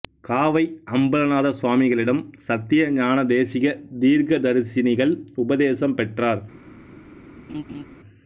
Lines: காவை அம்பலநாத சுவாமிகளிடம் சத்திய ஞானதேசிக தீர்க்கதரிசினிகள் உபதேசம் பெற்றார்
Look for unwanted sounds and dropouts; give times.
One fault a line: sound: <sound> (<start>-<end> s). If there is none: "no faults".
sound: laugh (7.5-7.8 s)